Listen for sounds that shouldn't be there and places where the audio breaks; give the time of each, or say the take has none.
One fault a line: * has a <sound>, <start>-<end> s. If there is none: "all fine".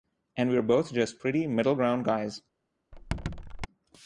* has a squeak, 2.9-3.7 s